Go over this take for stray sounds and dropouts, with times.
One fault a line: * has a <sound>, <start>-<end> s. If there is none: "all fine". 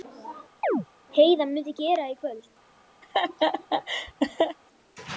* has a chirp, 0.6-0.9 s
* has a laugh, 3.0-4.6 s